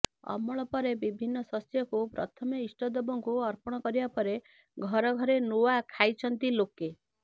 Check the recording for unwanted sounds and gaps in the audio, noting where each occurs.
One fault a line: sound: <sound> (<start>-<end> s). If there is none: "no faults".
no faults